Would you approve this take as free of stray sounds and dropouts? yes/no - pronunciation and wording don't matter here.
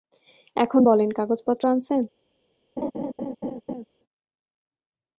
no